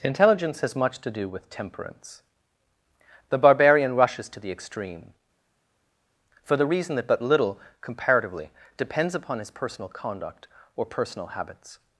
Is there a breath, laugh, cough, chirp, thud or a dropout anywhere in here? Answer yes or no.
no